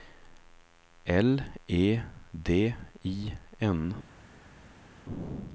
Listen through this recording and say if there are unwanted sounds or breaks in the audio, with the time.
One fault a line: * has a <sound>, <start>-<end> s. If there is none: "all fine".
all fine